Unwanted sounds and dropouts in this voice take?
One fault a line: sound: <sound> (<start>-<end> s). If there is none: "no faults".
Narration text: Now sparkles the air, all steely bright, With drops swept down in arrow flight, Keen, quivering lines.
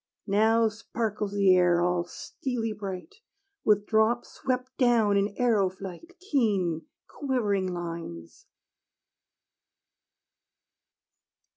no faults